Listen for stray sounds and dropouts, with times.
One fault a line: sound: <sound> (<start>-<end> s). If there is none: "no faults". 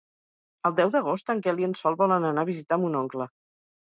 no faults